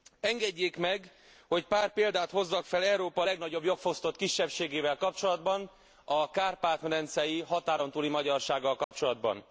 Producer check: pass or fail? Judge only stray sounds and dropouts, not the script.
fail